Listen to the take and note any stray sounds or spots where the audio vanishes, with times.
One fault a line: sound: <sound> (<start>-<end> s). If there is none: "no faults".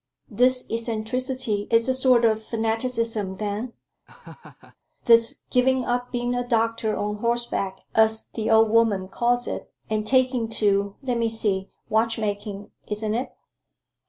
sound: laugh (4.1-4.8 s)